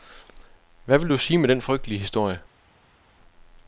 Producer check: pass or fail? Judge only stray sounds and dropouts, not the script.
pass